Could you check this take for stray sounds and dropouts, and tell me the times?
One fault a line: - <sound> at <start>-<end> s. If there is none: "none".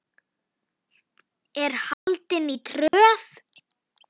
- dropout at 1.9-2.1 s
- dropout at 2.9-2.9 s